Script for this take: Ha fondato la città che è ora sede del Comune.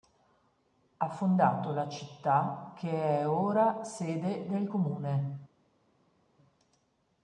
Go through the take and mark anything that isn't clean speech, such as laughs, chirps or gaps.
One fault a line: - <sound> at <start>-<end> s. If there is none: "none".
none